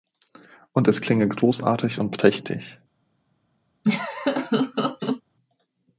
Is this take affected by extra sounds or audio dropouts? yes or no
yes